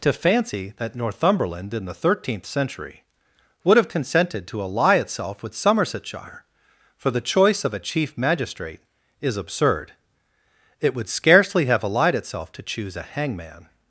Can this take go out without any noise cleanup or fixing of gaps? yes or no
yes